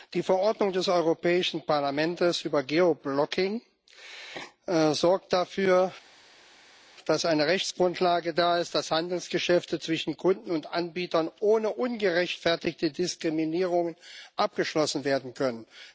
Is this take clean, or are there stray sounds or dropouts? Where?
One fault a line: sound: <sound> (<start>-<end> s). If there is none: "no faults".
no faults